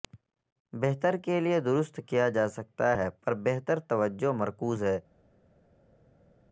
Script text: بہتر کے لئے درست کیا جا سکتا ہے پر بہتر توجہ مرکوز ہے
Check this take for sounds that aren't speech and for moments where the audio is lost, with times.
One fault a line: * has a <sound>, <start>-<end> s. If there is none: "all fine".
all fine